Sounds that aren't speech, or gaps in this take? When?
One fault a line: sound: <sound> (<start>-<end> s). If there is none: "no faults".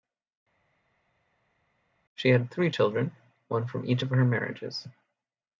no faults